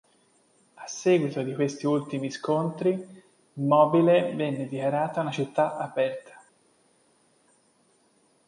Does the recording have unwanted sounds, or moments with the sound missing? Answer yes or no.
no